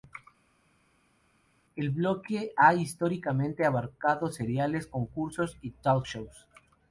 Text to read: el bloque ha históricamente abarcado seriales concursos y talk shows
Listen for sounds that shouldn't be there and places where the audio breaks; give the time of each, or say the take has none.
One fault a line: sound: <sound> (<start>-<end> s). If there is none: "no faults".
no faults